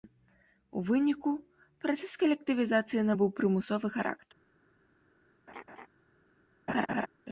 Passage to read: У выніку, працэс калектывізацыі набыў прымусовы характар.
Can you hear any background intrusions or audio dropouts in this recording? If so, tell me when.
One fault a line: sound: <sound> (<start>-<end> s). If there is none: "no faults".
sound: laugh (5.5-5.9 s)
sound: laugh (6.7-7.1 s)